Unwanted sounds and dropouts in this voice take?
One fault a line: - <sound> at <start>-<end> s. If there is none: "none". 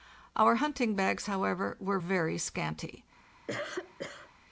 - cough at 3.5-4.3 s